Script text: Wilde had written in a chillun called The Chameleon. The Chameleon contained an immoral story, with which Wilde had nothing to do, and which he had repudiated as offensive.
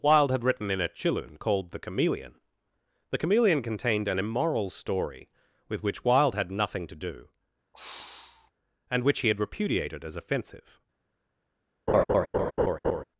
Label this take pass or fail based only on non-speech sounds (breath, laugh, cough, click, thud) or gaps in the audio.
fail